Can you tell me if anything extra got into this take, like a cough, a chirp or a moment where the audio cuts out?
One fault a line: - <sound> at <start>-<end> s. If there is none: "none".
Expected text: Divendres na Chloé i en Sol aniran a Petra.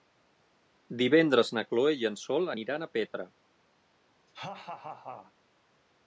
- laugh at 4.3-5.3 s